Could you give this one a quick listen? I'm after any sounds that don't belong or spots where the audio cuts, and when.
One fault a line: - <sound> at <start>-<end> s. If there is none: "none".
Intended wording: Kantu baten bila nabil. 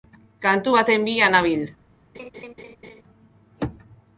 - laugh at 2.1-3.0 s